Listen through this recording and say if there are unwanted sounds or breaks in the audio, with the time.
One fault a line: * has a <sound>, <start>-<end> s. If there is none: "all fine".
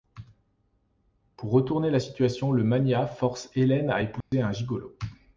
* has a dropout, 4.2-4.3 s